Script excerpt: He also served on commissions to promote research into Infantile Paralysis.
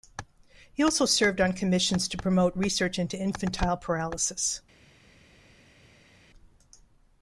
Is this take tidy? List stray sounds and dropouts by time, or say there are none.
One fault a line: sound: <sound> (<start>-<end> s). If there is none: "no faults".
no faults